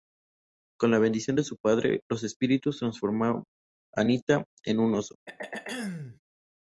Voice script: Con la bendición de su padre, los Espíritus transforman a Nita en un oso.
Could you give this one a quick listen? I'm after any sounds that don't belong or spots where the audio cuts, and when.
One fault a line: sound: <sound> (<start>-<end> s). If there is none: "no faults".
sound: throat clearing (5.3-6.2 s)